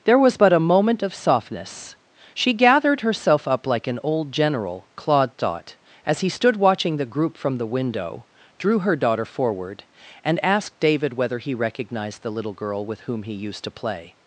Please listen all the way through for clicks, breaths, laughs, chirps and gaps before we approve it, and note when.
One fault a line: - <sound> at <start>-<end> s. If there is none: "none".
none